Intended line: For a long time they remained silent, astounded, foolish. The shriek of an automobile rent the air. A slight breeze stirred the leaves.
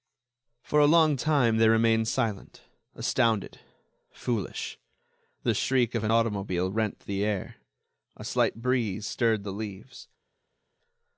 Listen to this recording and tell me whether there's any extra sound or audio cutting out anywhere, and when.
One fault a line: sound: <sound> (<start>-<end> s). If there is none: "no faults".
no faults